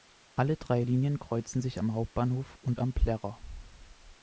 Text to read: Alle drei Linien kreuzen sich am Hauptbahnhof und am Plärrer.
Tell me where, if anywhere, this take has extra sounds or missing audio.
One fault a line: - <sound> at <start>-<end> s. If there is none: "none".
none